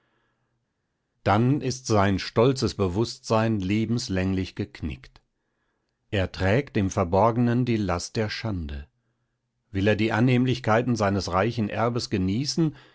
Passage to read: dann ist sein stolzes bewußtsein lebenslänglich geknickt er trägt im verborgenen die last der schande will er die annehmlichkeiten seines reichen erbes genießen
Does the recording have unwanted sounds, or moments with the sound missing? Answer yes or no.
no